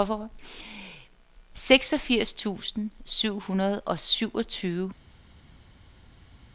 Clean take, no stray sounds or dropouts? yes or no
yes